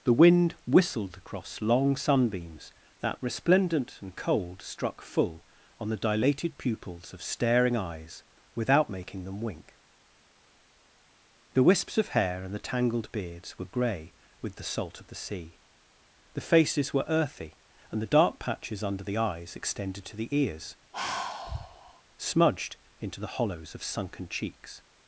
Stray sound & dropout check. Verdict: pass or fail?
fail